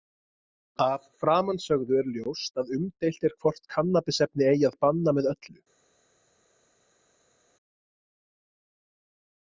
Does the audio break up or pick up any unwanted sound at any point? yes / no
no